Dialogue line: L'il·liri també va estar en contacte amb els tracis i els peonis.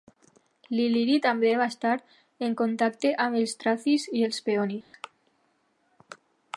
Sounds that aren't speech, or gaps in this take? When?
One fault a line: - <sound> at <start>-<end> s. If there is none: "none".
- dropout at 4.8-4.9 s